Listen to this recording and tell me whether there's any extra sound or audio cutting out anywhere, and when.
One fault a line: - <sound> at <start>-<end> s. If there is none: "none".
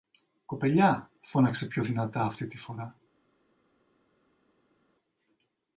none